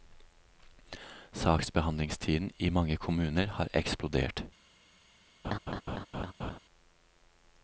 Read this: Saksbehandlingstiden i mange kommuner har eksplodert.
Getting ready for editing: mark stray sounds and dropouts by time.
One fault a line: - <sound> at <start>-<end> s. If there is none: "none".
- laugh at 5.4-6.6 s